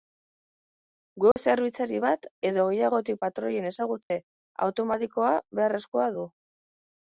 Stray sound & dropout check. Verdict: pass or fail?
fail